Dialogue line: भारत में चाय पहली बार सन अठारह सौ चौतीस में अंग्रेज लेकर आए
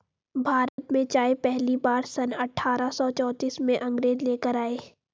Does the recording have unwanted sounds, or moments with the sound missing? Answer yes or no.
yes